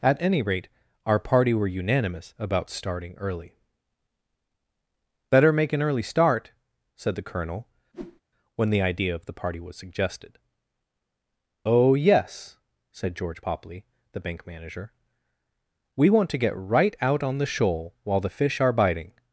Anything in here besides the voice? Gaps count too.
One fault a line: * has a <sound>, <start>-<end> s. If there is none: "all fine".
* has a whoosh, 7.9-8.2 s